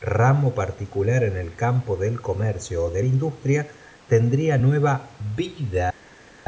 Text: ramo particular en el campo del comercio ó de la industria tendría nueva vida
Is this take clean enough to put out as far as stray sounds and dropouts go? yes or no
yes